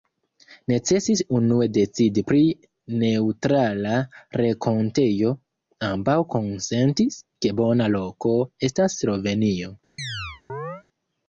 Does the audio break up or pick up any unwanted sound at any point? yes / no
yes